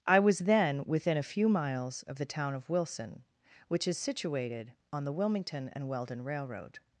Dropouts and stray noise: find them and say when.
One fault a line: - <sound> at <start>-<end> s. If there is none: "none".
none